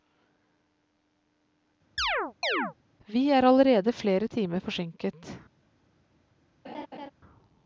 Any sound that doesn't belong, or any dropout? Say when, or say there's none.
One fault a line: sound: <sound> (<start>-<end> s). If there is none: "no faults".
sound: chirp (2.0-2.7 s)
sound: laugh (6.6-7.1 s)